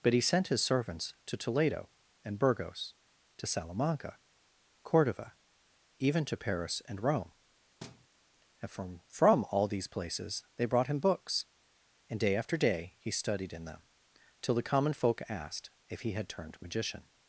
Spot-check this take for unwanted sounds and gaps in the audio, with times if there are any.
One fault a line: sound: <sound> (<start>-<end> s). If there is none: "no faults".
sound: thud (7.8-8.1 s)